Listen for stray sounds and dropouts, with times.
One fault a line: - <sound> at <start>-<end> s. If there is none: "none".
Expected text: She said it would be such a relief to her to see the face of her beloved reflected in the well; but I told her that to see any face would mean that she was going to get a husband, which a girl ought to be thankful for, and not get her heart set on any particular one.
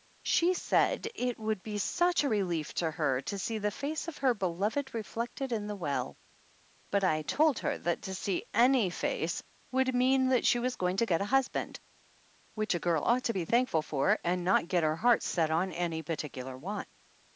none